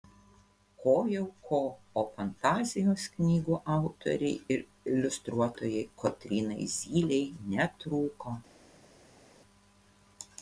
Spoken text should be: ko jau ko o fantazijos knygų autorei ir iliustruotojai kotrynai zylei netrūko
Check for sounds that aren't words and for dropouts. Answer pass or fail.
pass